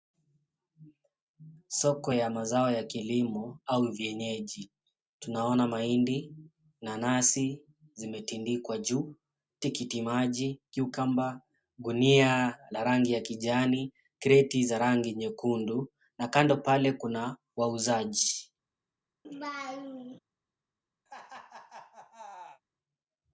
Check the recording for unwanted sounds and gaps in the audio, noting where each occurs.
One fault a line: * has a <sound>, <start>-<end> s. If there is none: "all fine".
* has a laugh, 19.2-20.2 s
* has a laugh, 21.1-22.6 s